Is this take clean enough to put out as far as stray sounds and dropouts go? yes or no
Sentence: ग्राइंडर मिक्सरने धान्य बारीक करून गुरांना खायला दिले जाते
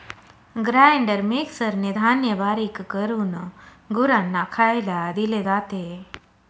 yes